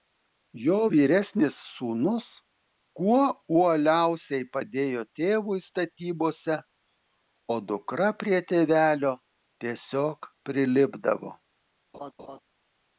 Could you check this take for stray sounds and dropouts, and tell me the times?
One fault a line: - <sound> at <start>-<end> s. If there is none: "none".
- laugh at 11.9-12.4 s